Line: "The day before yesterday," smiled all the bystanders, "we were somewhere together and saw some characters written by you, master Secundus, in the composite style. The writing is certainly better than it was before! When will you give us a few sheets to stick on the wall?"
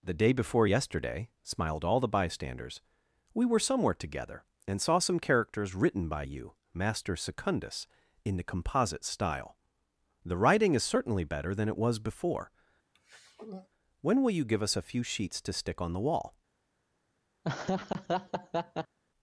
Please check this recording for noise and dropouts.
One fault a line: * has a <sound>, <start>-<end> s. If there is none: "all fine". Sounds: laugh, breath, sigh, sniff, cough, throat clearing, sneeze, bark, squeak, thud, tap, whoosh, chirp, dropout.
* has a throat clearing, 12.9-13.7 s
* has a laugh, 17.4-19.0 s